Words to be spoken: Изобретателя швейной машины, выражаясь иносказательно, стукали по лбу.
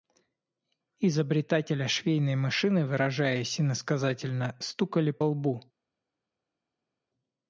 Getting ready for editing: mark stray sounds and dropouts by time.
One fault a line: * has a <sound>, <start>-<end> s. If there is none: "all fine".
all fine